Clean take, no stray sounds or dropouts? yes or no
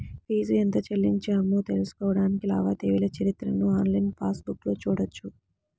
yes